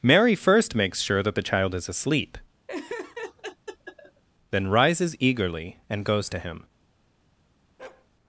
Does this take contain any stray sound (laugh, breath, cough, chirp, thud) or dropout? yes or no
yes